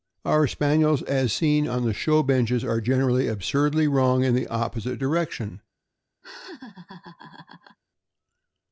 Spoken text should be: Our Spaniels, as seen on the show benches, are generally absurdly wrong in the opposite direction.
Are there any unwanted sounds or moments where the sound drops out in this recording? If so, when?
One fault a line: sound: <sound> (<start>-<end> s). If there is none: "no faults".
sound: laugh (6.2-7.8 s)